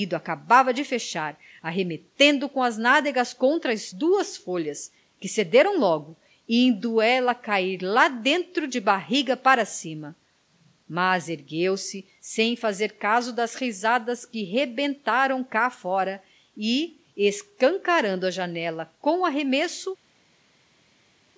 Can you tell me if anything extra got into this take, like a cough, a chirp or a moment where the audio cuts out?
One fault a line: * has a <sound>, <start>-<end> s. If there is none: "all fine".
all fine